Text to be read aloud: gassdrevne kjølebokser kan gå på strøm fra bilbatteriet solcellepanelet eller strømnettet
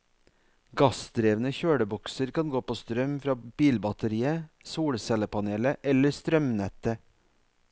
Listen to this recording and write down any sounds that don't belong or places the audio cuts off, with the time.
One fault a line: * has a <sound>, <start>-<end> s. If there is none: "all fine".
all fine